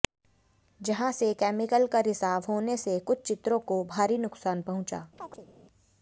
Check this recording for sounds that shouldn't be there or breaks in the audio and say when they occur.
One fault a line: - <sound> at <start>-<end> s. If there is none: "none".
- chirp at 5.2-5.5 s